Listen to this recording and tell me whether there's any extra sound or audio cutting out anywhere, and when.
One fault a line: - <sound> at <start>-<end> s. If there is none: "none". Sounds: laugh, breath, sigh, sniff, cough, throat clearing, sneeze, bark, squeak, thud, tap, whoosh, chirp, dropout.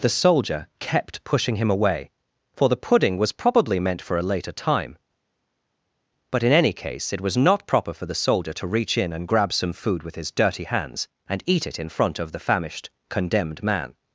none